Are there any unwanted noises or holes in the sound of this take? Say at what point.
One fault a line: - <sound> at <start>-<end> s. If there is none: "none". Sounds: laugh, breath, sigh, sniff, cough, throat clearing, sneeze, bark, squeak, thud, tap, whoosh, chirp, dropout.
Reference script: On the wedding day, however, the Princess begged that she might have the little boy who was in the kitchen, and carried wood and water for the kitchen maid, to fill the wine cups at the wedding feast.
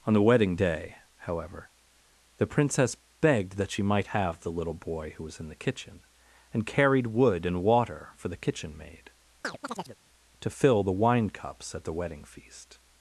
- chirp at 9.4-10.0 s